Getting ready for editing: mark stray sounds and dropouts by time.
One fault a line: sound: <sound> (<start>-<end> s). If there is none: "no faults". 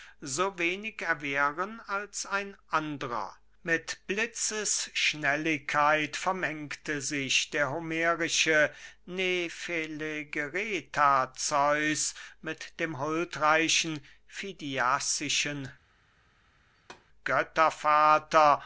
sound: thud (16.7-17.1 s)